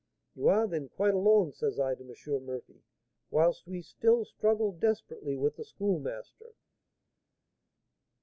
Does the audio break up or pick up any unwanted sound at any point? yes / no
no